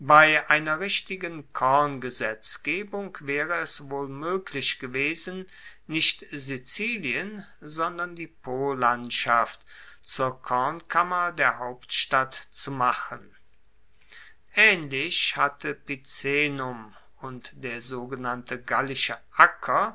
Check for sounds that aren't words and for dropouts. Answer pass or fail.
pass